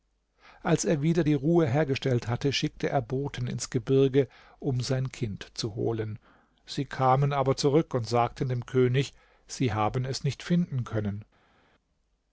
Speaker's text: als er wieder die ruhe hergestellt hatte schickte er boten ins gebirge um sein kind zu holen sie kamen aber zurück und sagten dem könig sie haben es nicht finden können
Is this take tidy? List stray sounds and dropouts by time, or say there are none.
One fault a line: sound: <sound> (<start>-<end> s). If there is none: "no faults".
no faults